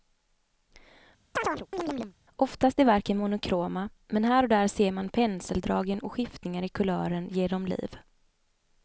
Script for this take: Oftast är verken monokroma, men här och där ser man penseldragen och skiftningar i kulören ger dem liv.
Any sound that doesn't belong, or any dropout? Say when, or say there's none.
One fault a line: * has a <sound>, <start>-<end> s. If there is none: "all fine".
* has a chirp, 1.4-2.1 s